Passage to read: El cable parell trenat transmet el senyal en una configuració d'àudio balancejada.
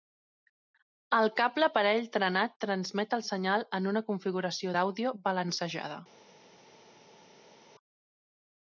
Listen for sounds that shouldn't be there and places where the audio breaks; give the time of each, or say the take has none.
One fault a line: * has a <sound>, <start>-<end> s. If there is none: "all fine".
all fine